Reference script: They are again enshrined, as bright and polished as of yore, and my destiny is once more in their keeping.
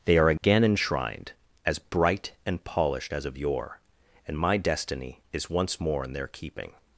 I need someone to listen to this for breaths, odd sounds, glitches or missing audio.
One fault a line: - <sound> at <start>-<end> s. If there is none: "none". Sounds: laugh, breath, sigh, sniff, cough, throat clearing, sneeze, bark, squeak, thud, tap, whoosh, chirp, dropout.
- dropout at 0.4-0.4 s